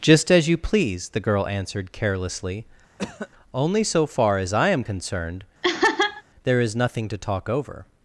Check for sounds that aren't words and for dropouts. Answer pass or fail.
fail